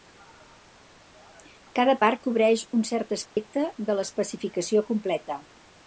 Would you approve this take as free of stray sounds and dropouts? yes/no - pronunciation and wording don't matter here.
no